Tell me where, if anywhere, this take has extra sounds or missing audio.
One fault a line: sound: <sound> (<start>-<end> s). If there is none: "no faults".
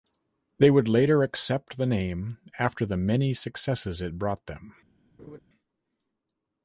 sound: laugh (5.2-5.4 s)